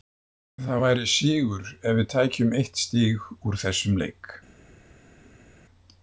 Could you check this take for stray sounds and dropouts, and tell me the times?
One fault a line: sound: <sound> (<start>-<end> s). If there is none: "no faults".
no faults